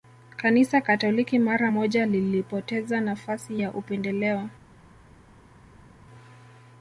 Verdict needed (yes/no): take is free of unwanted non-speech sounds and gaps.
yes